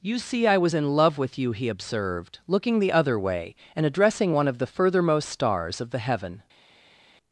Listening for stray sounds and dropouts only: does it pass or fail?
pass